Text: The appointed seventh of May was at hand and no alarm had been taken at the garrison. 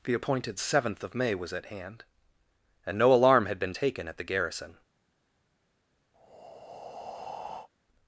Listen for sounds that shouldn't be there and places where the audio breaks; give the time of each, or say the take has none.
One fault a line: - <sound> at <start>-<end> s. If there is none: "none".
- breath at 6.1-7.7 s